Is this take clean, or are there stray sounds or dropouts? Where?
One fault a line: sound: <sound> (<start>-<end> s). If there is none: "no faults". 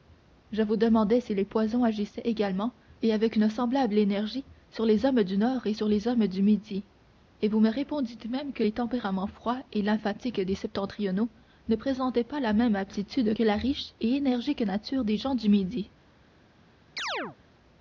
sound: chirp (17.0-17.4 s)